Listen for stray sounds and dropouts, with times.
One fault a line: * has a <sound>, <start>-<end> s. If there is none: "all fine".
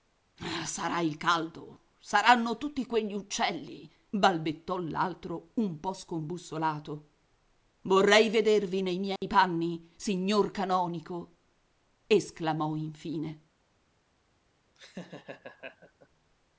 * has a dropout, 9.2-9.2 s
* has a laugh, 14.8-16.1 s